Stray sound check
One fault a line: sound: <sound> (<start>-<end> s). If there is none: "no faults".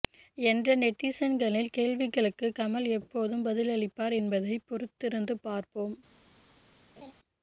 sound: laugh (7.0-7.1 s)